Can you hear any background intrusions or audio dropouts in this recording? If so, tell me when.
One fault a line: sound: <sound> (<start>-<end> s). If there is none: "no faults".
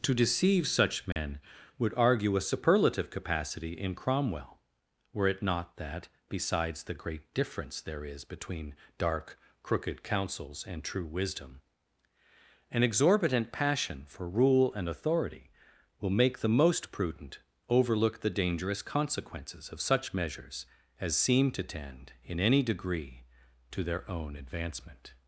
sound: dropout (1.1-1.2 s)